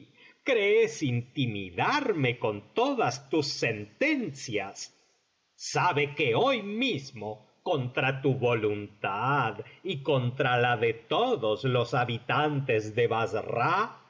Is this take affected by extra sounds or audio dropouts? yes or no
no